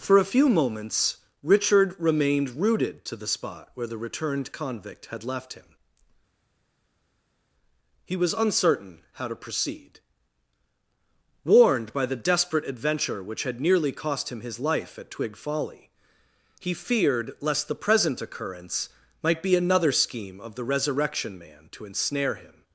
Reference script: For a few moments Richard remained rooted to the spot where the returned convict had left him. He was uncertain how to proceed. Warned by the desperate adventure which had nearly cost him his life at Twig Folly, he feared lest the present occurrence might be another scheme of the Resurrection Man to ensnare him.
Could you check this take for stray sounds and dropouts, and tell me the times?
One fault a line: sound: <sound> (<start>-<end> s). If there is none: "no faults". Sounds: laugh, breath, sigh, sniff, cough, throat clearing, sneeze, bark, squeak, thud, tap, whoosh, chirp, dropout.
no faults